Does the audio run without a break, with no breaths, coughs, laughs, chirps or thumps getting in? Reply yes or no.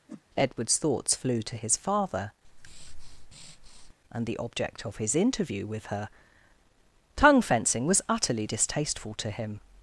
no